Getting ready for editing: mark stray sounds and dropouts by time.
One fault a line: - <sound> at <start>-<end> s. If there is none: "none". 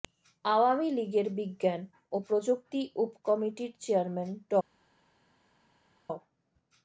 none